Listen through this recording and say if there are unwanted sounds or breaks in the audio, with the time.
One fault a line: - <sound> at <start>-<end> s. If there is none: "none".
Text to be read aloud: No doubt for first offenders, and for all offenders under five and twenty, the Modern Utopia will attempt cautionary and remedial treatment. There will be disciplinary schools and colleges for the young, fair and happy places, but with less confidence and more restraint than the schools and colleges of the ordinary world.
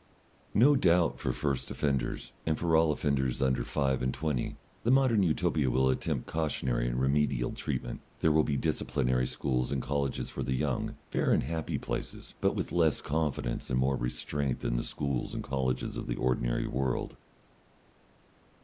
none